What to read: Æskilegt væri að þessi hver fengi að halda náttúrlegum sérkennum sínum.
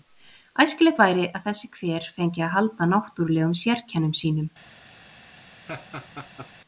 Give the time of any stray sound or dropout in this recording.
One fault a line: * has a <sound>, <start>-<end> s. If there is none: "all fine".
* has a laugh, 5.7-6.5 s